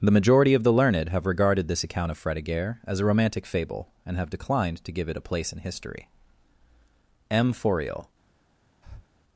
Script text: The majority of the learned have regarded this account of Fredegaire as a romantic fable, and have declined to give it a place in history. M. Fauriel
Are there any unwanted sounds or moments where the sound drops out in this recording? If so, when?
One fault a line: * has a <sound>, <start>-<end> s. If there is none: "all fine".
* has a breath, 8.8-9.1 s